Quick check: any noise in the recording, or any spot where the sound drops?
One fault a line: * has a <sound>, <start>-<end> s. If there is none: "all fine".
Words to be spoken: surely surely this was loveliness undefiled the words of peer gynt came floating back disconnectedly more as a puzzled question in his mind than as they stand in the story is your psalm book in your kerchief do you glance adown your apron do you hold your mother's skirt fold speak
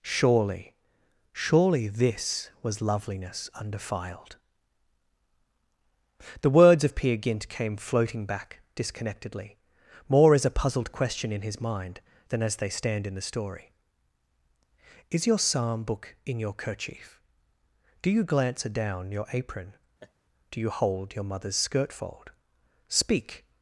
* has a laugh, 20.0-20.1 s